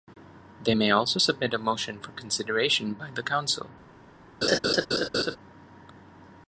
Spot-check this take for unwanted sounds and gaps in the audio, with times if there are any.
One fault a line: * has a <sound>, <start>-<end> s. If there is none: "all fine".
* has a laugh, 4.4-5.4 s